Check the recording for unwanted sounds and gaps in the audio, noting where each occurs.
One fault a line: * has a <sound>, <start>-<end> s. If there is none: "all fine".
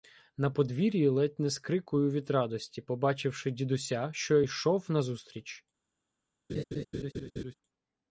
* has a laugh, 6.5-7.5 s